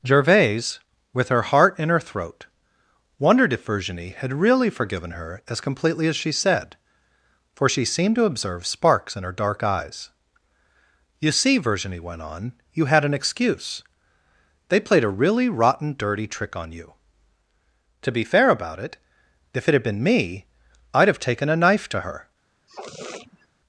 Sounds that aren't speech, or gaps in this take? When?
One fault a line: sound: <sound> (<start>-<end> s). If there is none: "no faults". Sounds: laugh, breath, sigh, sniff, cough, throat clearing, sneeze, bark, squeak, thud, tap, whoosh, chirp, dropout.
sound: sniff (22.7-23.5 s)